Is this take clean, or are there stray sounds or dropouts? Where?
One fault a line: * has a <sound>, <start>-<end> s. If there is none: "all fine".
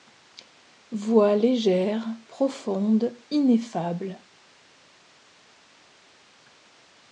all fine